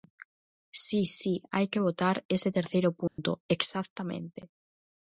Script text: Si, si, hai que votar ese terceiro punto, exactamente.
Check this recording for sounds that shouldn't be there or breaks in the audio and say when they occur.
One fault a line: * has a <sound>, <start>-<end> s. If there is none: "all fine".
* has a dropout, 3.1-3.2 s